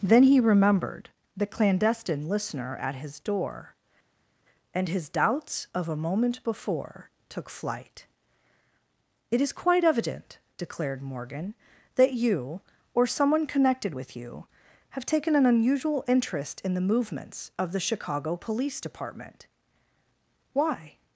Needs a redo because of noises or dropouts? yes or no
no